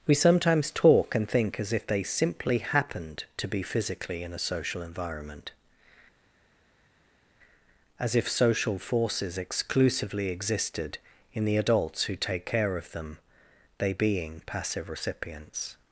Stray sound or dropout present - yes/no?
no